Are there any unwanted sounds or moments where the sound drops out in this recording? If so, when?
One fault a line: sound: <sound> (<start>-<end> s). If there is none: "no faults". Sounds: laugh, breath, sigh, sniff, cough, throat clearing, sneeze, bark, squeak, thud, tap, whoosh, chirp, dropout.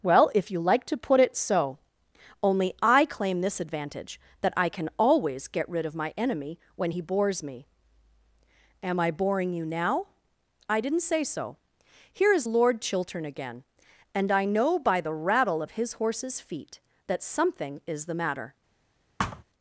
sound: thud (19.2-19.4 s)